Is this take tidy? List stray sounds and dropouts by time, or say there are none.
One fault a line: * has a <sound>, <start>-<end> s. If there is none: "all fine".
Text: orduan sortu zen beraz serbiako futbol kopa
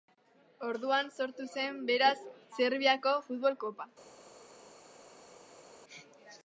all fine